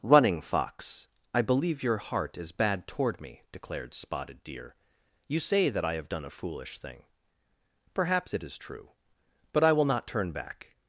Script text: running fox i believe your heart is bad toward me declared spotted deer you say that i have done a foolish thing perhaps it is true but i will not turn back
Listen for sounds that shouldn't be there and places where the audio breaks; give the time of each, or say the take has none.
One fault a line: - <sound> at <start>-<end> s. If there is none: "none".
none